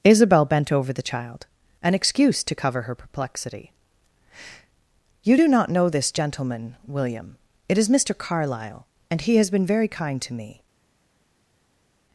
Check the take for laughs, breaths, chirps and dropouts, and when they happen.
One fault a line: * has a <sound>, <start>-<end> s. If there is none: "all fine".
all fine